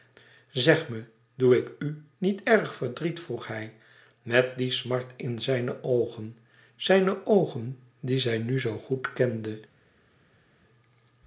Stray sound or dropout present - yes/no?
no